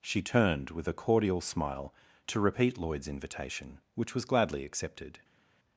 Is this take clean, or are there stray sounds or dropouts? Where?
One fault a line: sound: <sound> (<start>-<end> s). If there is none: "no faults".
no faults